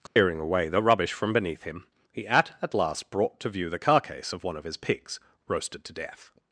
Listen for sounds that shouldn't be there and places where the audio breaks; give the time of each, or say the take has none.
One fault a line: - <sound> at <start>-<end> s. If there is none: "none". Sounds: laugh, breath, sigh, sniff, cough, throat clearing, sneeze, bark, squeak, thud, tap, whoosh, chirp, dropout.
- dropout at 0.1-0.2 s